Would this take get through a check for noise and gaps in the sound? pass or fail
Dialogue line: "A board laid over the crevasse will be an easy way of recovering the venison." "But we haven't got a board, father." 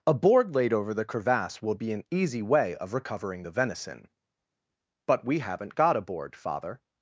pass